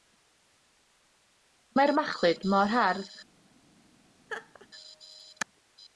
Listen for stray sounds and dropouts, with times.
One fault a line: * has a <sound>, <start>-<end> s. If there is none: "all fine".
* has a laugh, 4.3-4.7 s